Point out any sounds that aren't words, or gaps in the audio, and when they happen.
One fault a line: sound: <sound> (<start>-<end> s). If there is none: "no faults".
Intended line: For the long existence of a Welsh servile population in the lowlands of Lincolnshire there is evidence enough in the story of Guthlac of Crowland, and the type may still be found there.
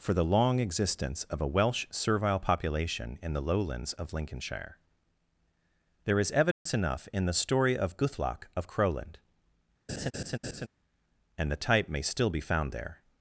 sound: dropout (6.5-6.7 s)
sound: laugh (9.9-10.7 s)